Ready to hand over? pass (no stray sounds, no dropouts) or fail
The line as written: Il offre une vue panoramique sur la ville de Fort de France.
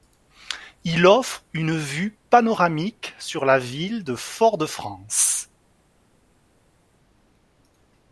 pass